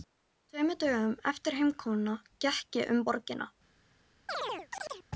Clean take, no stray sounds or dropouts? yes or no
no